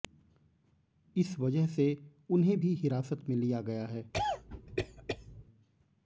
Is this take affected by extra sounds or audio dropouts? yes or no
yes